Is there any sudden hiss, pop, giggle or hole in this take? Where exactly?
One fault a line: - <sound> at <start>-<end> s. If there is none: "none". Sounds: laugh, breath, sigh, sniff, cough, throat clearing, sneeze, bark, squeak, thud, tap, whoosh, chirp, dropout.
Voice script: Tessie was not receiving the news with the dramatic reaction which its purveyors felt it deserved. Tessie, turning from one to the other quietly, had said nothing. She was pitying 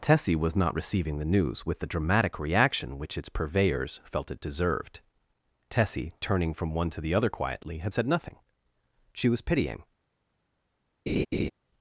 - laugh at 11.1-11.5 s